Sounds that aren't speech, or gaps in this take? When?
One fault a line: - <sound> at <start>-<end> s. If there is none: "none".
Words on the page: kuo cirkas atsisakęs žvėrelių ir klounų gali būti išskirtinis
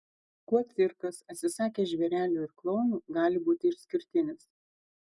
none